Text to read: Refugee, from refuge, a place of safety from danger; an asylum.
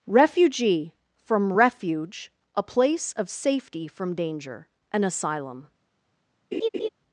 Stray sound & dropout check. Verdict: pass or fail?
fail